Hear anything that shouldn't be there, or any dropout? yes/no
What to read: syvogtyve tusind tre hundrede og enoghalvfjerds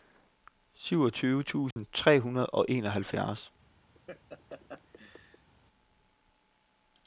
yes